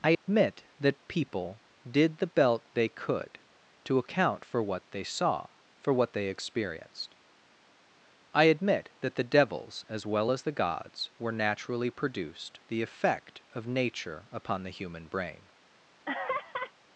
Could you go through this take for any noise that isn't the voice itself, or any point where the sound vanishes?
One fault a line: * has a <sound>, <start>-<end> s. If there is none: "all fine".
* has a dropout, 0.1-0.3 s
* has a laugh, 16.0-16.7 s